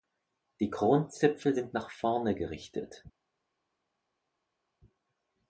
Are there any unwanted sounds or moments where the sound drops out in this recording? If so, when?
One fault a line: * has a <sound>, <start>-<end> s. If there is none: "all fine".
all fine